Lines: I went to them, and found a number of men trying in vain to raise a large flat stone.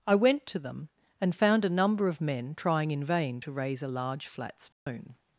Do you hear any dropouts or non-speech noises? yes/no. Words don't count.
yes